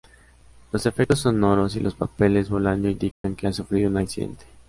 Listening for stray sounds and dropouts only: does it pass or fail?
fail